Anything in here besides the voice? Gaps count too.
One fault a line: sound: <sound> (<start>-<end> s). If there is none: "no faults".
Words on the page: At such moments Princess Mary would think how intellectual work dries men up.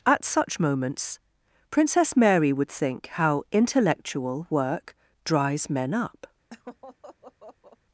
sound: laugh (6.5-7.8 s)